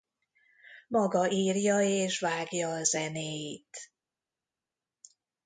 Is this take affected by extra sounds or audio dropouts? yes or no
no